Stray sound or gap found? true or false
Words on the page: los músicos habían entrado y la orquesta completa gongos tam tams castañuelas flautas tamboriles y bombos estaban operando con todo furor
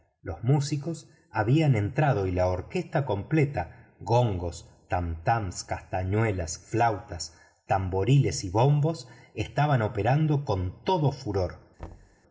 true